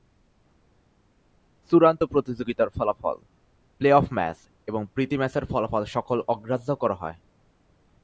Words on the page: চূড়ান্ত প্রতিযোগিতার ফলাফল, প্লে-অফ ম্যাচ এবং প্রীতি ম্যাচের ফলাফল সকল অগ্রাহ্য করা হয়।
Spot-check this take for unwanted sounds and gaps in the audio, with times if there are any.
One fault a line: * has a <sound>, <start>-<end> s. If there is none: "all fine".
all fine